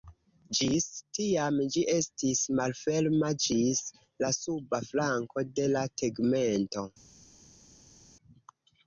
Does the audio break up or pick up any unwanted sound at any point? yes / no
no